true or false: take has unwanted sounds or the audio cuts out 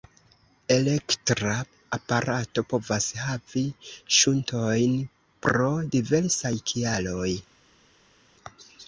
false